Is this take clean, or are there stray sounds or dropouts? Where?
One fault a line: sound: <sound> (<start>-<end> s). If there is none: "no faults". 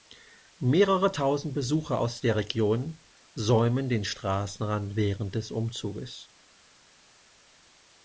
no faults